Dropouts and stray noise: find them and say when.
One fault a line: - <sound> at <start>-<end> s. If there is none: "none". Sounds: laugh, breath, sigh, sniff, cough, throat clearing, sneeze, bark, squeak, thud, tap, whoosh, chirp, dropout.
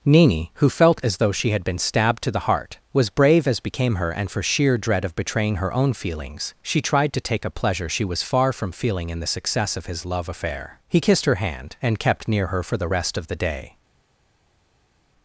none